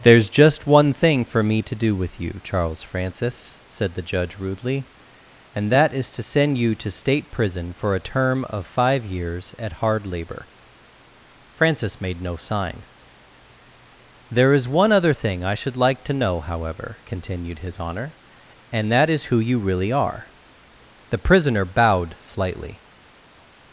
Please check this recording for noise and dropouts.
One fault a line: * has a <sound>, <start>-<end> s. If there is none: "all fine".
all fine